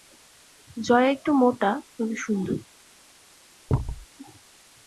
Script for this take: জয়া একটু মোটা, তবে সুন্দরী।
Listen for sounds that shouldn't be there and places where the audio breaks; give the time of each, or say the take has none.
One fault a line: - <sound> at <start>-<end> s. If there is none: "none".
- thud at 3.7-4.1 s